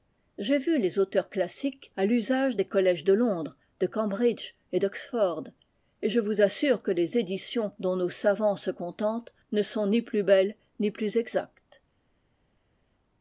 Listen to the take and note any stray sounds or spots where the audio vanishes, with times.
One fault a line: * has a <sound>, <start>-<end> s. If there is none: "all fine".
all fine